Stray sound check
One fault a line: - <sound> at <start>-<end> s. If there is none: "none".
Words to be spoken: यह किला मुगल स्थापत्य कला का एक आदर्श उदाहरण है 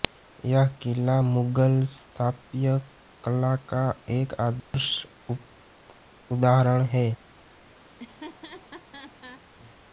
- dropout at 4.6-4.7 s
- laugh at 7.9-9.4 s